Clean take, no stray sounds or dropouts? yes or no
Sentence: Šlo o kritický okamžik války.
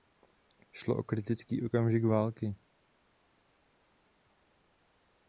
yes